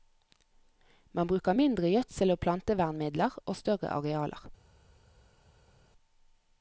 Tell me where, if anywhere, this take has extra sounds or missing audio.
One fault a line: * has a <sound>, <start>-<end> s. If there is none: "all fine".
all fine